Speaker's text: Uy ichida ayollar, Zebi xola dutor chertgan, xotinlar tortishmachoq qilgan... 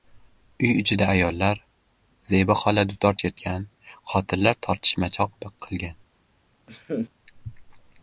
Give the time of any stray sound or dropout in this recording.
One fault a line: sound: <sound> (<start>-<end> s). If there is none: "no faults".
sound: laugh (6.7-7.1 s)